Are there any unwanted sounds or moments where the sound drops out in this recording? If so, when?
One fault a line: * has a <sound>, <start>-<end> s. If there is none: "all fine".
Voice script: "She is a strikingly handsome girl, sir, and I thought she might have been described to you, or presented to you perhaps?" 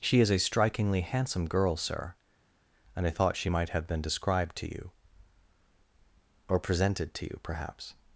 all fine